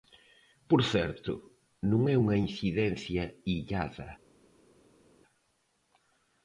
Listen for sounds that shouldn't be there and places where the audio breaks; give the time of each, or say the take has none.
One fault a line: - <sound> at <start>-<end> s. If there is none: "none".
none